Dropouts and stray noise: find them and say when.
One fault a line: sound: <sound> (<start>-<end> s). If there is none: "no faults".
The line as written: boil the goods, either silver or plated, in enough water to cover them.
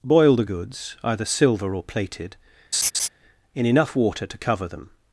sound: laugh (2.7-3.1 s)